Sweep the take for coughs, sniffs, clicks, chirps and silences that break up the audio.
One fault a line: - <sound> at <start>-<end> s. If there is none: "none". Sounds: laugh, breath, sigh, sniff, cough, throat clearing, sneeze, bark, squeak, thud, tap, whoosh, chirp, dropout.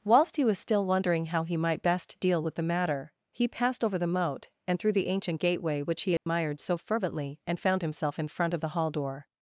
- dropout at 6.2-6.3 s